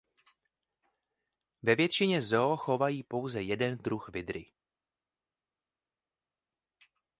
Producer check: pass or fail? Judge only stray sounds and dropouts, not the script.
pass